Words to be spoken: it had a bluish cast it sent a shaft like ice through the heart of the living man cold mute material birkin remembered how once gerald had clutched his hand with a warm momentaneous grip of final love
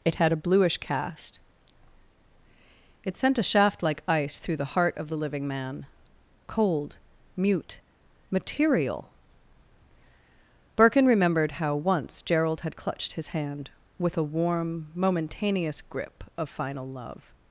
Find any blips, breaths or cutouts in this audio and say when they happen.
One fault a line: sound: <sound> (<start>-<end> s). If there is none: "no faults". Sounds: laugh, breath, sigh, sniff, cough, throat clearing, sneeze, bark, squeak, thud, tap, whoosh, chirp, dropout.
no faults